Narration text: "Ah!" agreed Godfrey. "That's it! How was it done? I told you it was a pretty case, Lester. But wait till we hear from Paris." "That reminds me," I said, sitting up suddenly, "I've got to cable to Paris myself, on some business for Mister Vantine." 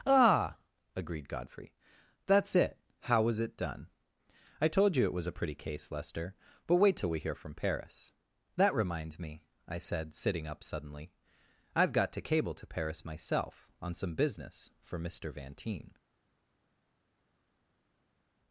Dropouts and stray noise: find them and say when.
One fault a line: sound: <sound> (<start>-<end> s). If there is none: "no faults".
no faults